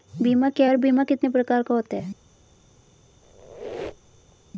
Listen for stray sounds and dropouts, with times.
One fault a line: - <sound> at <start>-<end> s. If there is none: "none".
- squeak at 3.2-4.4 s